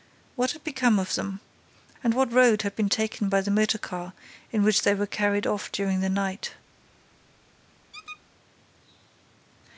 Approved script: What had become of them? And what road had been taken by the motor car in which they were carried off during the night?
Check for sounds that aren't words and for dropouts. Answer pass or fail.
fail